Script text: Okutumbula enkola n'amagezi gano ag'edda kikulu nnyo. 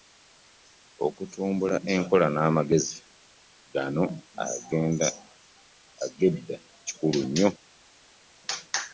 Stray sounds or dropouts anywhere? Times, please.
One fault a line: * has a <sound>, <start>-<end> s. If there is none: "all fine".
all fine